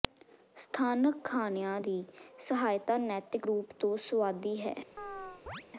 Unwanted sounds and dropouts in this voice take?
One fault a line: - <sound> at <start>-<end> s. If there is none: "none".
- chirp at 5.0-5.6 s